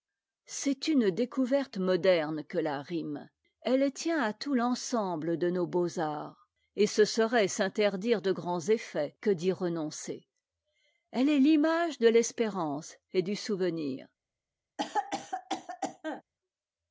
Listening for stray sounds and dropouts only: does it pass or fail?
fail